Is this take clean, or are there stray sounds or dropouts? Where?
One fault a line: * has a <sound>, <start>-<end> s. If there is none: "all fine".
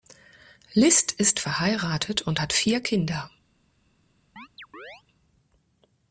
* has a chirp, 4.4-5.0 s